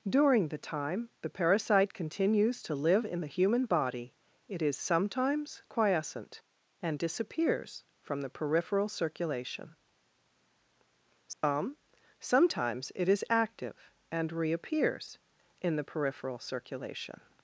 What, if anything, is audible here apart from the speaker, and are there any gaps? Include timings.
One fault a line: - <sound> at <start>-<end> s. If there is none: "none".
- dropout at 11.3-11.4 s